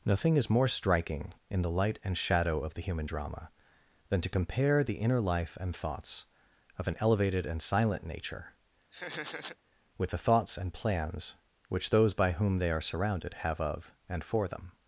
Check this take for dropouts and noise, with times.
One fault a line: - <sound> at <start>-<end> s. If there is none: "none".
- laugh at 8.9-9.6 s